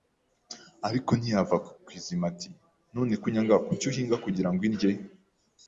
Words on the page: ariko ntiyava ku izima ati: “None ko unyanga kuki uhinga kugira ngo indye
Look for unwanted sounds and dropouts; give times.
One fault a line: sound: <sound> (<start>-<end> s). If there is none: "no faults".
no faults